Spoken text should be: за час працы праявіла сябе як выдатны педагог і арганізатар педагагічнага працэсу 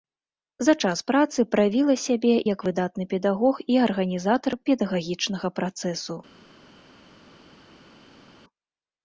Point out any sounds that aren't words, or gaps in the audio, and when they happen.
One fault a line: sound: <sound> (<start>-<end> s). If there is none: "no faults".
no faults